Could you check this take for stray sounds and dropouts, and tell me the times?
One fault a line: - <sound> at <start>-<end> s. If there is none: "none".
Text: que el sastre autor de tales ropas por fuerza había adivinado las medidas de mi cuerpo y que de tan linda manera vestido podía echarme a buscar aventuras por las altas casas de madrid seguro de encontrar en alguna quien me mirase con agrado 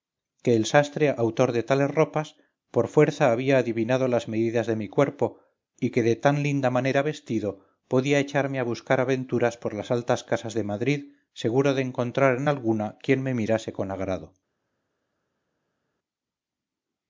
none